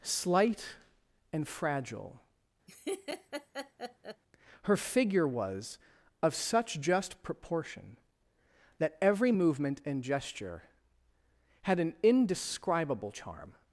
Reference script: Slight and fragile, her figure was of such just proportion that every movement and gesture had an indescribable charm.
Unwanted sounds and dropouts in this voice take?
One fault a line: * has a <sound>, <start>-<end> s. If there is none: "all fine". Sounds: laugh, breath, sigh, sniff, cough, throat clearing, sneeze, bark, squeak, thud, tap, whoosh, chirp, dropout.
* has a laugh, 2.7-4.2 s